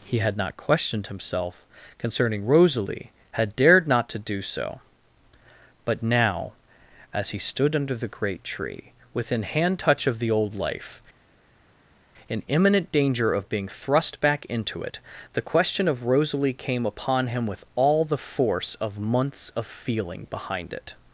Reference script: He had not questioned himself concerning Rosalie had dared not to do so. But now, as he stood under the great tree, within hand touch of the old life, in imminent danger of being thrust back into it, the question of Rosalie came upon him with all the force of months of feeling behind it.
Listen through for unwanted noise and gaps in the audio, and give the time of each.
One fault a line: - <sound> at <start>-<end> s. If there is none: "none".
none